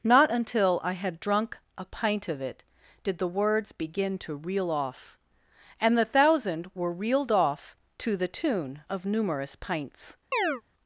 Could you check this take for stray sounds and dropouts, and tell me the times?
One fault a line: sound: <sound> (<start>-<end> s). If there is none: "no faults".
sound: chirp (10.3-10.6 s)